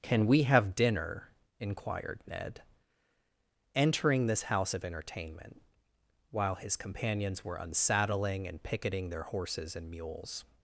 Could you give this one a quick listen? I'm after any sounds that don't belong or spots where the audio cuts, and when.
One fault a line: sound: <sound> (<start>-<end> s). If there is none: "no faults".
no faults